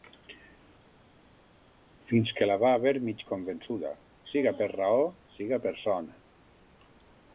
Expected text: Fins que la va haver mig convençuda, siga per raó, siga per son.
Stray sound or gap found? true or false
false